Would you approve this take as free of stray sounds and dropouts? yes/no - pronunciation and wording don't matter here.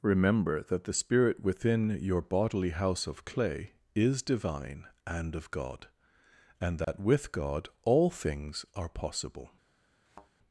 no